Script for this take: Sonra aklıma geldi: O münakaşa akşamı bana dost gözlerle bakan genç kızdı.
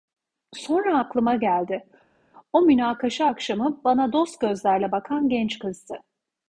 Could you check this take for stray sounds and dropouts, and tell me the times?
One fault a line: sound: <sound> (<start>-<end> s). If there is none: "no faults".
no faults